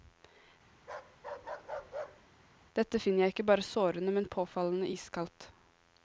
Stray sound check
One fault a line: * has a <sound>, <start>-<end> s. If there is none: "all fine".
* has a bark, 0.8-2.3 s